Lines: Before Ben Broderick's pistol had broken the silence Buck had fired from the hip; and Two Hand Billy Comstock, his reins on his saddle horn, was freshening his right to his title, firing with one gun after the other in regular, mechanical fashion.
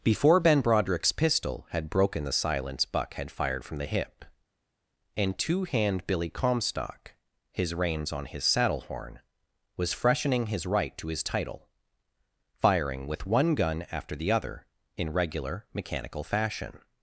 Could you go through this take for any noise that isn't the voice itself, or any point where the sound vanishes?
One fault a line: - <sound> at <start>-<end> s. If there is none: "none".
none